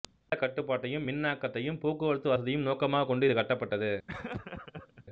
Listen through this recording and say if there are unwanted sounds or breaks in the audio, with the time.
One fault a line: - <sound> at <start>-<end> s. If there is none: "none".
- laugh at 4.1-5.1 s